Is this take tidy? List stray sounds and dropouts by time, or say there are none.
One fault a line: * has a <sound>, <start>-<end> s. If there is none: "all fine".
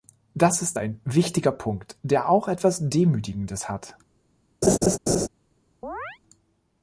* has a laugh, 4.6-5.3 s
* has a chirp, 5.8-6.2 s